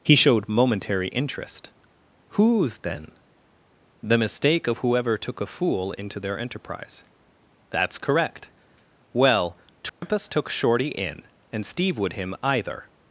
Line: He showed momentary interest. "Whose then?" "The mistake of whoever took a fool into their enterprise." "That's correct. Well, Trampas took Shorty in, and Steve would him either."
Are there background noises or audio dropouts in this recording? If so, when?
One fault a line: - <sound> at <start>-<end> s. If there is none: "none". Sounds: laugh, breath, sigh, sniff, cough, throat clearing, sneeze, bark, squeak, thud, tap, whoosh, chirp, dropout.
- dropout at 9.9-10.0 s